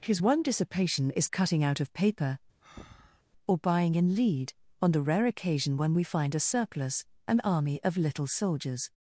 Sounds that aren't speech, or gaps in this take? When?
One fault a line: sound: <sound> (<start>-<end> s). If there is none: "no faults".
sound: breath (2.6-3.2 s)